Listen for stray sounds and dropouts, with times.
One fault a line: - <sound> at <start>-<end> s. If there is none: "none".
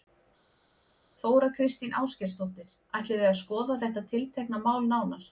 none